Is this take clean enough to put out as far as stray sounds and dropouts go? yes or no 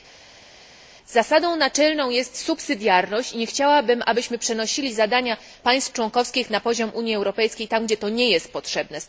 yes